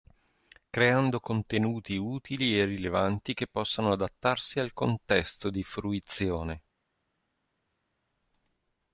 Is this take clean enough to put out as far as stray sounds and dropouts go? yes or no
yes